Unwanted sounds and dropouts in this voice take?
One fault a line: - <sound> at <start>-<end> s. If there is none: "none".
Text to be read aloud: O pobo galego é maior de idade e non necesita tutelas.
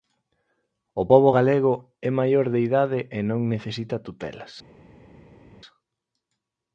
none